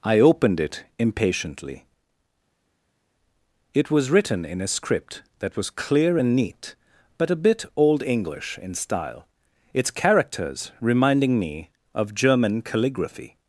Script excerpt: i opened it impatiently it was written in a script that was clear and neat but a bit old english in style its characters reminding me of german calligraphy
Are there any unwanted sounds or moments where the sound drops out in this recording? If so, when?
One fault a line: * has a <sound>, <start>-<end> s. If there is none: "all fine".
all fine